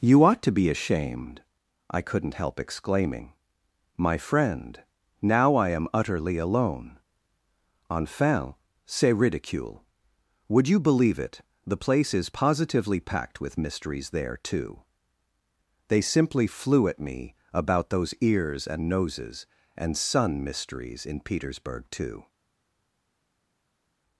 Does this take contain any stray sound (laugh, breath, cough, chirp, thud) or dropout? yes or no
no